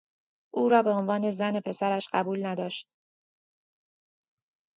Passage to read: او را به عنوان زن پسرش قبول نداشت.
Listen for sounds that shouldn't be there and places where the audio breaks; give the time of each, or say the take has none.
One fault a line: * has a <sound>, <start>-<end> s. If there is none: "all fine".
all fine